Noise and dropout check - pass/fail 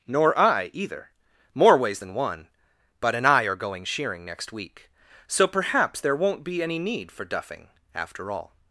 pass